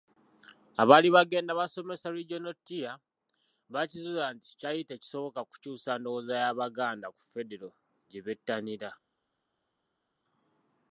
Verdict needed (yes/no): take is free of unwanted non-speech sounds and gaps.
yes